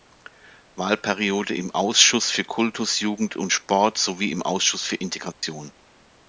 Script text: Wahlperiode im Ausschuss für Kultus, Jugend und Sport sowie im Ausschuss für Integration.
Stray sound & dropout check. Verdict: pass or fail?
fail